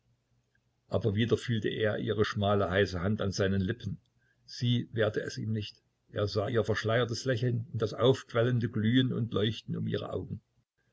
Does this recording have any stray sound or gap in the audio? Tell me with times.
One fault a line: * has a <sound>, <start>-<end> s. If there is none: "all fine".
all fine